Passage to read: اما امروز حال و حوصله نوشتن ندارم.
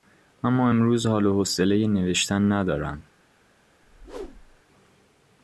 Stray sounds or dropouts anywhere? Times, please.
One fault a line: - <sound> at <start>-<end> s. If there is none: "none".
- whoosh at 3.8-4.6 s